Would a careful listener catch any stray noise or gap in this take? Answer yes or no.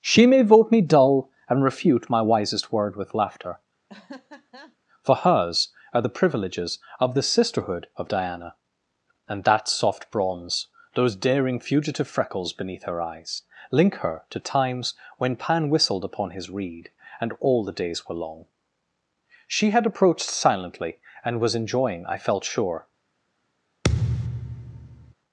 yes